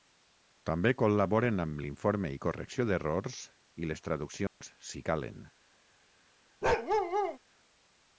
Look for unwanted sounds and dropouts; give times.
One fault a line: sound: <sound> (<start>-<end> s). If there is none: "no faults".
sound: dropout (4.5-4.6 s)
sound: bark (6.6-7.4 s)